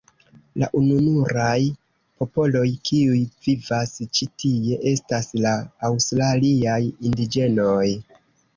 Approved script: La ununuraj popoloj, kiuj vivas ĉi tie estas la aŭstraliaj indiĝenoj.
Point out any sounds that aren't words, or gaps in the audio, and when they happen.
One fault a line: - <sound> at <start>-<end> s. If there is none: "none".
none